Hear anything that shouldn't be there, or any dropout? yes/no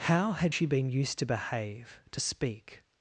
no